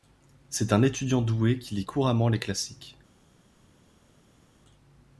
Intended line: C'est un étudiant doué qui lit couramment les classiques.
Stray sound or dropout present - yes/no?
no